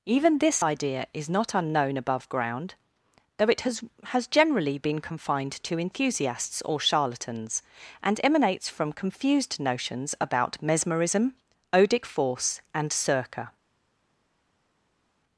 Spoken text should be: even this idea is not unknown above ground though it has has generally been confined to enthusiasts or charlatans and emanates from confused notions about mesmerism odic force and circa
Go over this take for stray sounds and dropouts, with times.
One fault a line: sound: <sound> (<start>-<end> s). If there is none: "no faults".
no faults